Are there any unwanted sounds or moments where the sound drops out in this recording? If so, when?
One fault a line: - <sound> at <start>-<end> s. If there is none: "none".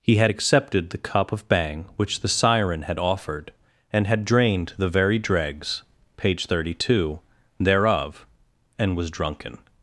none